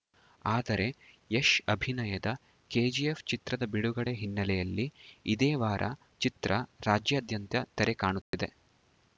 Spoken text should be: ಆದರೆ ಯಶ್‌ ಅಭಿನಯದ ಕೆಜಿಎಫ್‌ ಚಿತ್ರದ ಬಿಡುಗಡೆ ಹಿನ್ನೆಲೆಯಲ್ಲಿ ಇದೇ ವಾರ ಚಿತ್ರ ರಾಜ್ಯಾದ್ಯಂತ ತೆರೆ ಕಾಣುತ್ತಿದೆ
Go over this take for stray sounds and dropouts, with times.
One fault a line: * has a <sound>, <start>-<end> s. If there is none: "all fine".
* has a dropout, 8.2-8.3 s